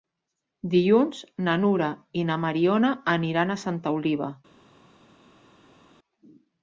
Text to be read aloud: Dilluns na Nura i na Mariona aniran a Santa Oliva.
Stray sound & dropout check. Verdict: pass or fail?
pass